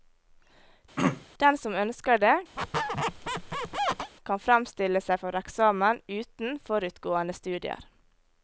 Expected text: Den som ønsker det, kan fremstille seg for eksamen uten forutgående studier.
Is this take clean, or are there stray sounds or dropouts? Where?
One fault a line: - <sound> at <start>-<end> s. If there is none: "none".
- throat clearing at 1.0-1.3 s
- squeak at 2.6-4.1 s